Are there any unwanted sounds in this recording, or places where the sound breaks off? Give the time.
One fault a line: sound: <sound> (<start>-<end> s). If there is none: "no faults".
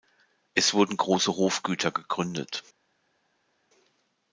no faults